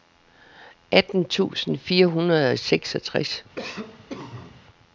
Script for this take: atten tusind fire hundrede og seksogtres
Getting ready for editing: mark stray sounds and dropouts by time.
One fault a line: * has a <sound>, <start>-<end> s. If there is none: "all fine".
* has a cough, 3.5-4.6 s